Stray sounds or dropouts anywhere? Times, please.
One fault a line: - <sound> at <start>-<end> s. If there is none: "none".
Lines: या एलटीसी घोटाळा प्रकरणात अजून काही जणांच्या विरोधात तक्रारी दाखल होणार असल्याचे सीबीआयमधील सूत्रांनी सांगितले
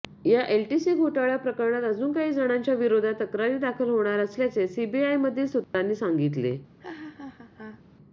- dropout at 5.6-5.7 s
- laugh at 6.8-7.8 s